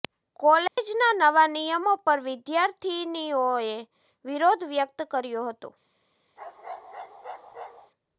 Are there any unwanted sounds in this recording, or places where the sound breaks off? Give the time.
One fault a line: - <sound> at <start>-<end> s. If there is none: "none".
- dropout at 0.7-0.8 s
- bark at 6.4-7.9 s